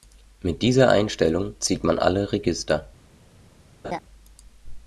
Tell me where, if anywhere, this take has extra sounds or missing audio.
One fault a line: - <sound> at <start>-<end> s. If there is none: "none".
- laugh at 3.8-4.0 s